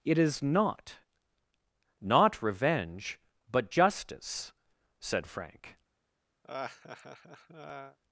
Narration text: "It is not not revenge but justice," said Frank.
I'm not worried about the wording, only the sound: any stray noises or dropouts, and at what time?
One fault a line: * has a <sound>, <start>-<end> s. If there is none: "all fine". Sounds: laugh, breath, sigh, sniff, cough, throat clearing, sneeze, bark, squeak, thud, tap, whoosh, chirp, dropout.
* has a laugh, 6.4-8.0 s